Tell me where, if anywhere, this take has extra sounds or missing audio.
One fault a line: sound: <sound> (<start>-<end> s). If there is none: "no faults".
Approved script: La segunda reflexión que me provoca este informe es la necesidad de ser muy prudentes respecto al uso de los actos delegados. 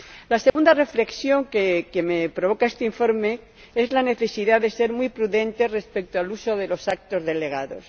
sound: dropout (0.5-0.6 s)